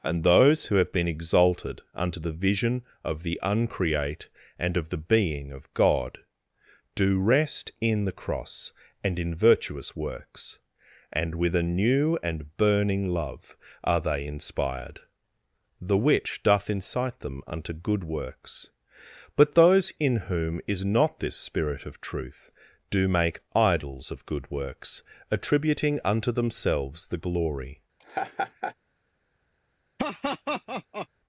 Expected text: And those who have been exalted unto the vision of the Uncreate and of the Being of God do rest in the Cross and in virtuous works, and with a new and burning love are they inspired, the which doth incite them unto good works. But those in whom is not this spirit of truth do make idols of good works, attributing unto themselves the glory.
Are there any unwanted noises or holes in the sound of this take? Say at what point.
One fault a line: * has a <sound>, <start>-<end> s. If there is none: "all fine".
* has a laugh, 28.0-28.7 s
* has a laugh, 30.0-31.1 s